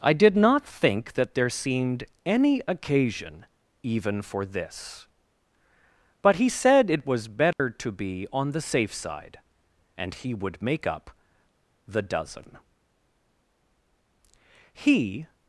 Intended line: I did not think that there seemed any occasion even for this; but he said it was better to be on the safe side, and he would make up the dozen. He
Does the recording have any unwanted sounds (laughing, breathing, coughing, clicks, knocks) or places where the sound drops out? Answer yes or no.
yes